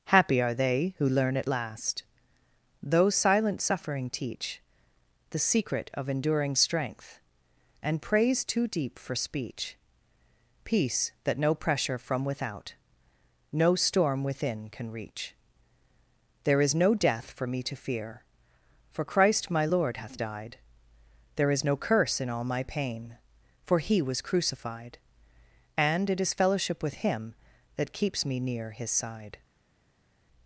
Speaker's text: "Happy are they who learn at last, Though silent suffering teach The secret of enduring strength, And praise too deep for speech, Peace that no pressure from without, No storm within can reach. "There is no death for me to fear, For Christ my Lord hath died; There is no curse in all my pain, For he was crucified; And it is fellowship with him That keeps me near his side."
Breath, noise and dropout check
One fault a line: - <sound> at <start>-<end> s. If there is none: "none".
none